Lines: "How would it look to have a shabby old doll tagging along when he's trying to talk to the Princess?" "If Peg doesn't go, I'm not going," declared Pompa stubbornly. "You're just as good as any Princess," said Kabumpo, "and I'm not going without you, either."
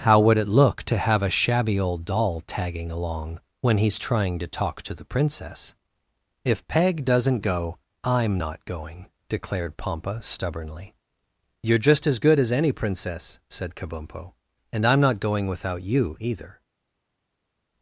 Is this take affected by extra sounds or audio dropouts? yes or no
no